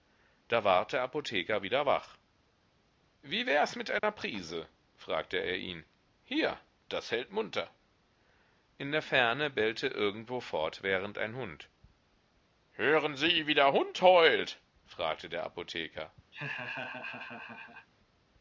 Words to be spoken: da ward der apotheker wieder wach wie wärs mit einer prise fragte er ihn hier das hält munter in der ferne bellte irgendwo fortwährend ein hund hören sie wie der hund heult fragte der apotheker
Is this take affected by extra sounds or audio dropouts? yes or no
yes